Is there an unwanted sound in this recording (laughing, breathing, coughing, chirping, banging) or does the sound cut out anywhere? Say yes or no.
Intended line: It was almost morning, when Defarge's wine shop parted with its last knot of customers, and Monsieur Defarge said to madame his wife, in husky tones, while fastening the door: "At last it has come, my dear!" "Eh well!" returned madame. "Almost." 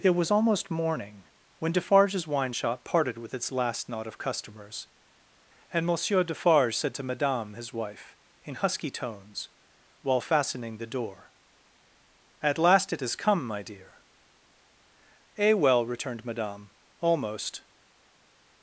no